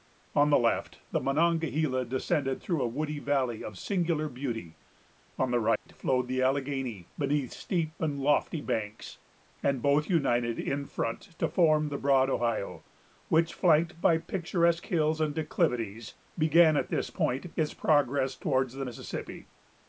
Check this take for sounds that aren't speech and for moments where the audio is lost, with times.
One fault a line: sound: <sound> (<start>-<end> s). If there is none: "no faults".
sound: dropout (5.8-5.9 s)